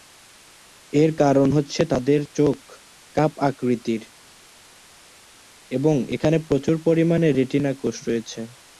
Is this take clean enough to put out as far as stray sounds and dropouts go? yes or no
yes